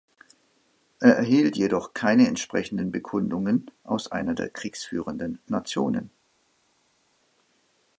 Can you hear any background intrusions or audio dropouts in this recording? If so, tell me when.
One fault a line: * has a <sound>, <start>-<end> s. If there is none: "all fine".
all fine